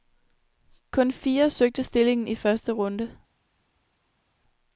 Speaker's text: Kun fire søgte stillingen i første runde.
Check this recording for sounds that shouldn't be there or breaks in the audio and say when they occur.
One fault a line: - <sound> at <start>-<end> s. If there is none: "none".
none